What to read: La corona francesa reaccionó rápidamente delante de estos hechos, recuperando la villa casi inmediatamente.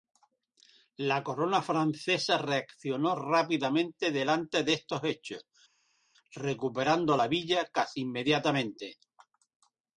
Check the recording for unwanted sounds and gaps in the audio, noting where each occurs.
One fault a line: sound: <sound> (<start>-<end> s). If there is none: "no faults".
no faults